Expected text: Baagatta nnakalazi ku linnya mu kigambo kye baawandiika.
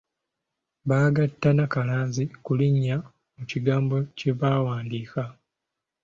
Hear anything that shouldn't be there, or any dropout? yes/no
no